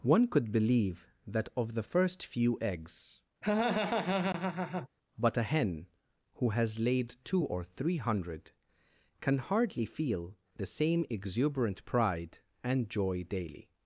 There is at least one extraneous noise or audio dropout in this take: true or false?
true